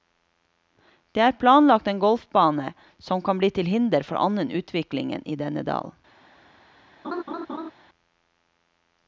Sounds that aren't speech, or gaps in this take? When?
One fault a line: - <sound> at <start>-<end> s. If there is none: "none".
- laugh at 7.0-7.7 s